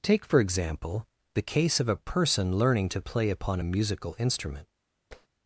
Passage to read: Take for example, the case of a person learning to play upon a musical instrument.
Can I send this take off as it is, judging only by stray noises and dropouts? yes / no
no